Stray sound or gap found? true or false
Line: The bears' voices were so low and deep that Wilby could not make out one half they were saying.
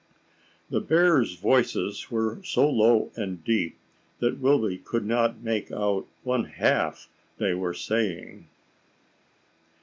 false